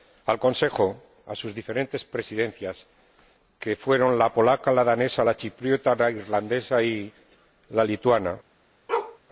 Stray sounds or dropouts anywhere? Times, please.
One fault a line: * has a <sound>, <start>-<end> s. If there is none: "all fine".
* has a bark, 8.9-9.2 s